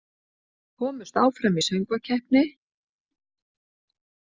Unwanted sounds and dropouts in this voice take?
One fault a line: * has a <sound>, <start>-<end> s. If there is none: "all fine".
all fine